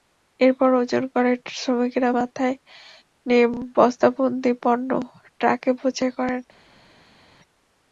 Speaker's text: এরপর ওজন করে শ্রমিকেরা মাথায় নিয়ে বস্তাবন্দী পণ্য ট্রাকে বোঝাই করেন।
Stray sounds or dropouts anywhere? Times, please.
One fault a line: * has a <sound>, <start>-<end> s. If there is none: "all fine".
all fine